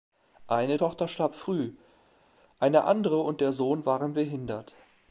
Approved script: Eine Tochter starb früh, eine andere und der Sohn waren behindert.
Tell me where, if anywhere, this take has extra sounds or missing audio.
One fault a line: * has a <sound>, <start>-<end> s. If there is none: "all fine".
all fine